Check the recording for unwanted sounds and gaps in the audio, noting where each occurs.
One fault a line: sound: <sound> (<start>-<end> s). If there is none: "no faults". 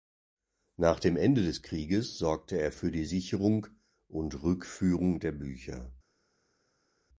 no faults